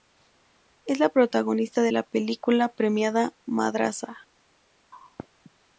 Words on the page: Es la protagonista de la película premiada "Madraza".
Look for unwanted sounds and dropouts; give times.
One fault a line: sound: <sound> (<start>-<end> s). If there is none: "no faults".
no faults